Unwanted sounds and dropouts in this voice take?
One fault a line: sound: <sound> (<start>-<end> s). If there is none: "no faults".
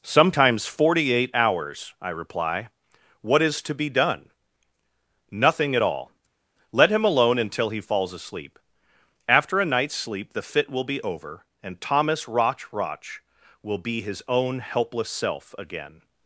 no faults